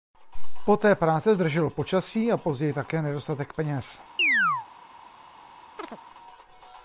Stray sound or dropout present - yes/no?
yes